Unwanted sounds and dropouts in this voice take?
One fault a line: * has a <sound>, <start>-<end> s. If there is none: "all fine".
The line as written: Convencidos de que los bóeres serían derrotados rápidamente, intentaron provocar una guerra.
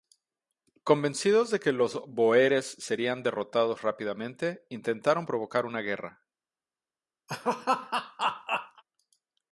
* has a laugh, 7.3-8.8 s